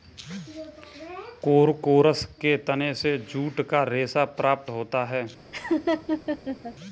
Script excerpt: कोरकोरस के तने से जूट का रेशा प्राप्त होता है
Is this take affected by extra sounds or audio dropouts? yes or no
yes